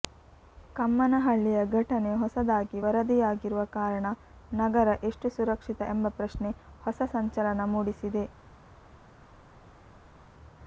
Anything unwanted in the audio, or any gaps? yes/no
no